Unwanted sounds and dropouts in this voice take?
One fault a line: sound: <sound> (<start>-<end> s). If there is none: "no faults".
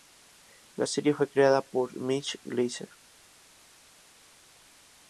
no faults